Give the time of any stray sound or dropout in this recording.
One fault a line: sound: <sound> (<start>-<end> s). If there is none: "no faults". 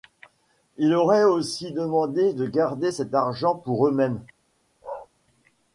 sound: bark (4.8-5.1 s)